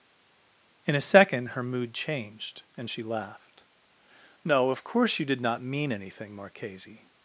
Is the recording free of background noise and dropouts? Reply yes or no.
yes